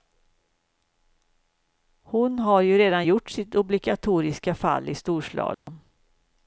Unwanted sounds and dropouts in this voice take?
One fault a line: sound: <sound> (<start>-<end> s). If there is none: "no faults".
sound: dropout (5.5-5.7 s)